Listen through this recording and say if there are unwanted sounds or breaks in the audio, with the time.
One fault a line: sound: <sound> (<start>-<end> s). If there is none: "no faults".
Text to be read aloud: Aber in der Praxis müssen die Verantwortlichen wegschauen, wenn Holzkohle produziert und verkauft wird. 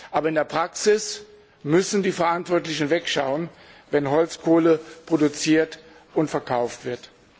no faults